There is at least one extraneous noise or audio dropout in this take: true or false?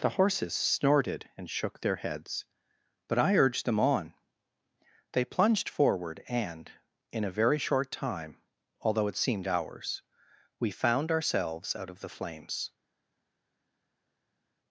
false